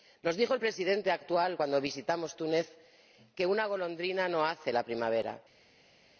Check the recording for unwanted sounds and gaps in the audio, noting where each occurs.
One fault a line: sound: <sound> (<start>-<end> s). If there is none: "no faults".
no faults